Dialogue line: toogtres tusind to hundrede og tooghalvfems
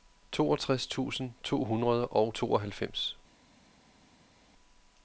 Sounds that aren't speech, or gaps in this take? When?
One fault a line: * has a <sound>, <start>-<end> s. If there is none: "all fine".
all fine